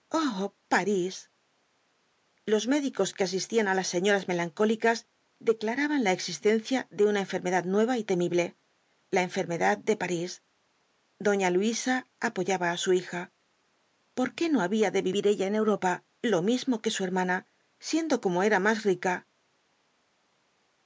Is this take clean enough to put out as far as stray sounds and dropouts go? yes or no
yes